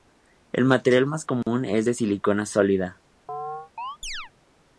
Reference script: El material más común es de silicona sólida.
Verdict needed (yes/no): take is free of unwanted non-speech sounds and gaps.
no